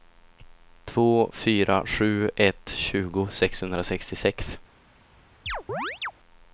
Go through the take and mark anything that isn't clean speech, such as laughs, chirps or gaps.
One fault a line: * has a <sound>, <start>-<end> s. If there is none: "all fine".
* has a chirp, 5.5-6.1 s